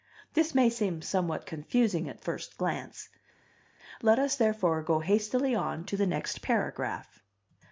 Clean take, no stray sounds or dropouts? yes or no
yes